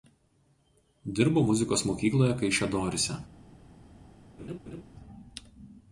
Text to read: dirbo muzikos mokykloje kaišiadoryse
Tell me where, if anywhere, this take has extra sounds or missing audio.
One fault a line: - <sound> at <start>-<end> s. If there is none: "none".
- laugh at 4.4-4.8 s